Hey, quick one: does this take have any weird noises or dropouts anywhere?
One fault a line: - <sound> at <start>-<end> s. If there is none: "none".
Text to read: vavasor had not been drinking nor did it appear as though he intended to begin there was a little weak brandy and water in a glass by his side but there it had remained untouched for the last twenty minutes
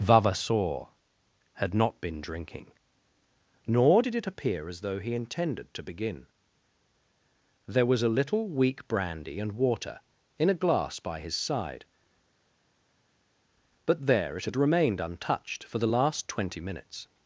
none